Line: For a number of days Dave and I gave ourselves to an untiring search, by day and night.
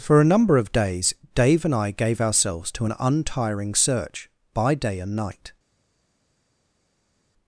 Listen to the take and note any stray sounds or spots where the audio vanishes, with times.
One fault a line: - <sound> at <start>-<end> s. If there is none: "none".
none